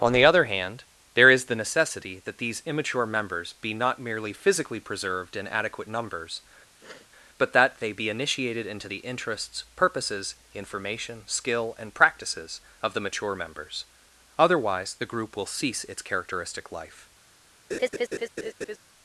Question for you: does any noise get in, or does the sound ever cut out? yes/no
yes